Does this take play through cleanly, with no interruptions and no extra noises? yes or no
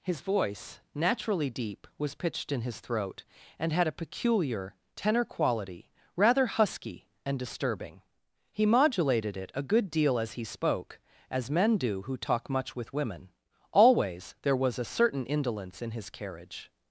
yes